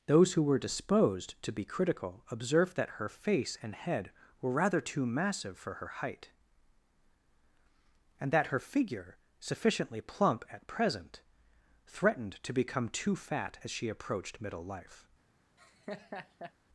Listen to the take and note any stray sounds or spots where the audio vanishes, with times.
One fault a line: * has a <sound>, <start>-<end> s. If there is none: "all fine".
* has a laugh, 15.6-16.5 s